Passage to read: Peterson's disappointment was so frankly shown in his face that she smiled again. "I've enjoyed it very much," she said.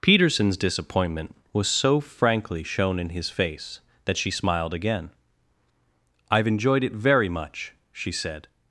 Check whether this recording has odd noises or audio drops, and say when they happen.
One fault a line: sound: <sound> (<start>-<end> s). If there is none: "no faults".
no faults